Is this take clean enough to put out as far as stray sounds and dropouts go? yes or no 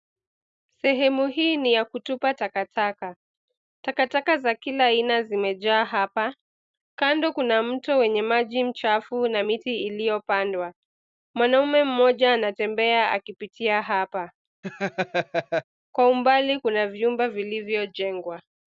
no